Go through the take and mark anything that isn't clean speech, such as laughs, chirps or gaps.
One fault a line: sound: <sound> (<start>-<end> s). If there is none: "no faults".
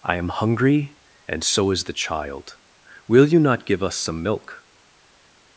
no faults